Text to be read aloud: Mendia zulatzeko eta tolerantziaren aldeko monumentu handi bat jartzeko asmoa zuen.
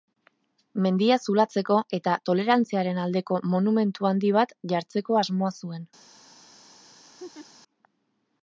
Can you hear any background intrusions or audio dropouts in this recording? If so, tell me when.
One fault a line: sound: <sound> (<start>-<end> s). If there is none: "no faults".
sound: laugh (7.2-7.5 s)